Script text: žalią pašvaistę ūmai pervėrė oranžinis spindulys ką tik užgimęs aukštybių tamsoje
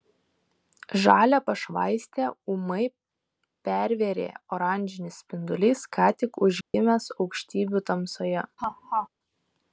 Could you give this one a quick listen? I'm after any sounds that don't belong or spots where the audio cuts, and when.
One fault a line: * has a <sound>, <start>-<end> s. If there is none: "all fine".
* has a dropout, 6.6-6.7 s
* has a laugh, 8.6-9.1 s